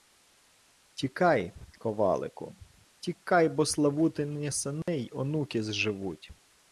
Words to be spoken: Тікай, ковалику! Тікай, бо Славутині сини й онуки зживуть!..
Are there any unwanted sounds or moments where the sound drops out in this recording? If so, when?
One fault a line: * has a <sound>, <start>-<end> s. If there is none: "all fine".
* has a dropout, 4.8-4.9 s